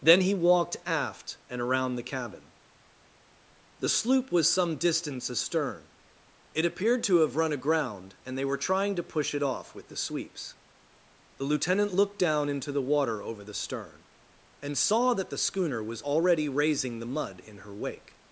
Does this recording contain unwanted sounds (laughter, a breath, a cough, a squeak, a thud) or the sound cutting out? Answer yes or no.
no